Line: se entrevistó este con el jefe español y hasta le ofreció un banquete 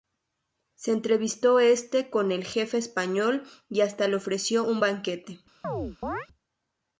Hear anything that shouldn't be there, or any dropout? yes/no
yes